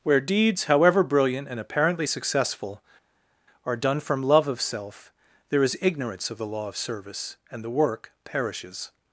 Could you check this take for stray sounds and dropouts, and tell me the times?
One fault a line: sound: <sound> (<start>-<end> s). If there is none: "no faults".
no faults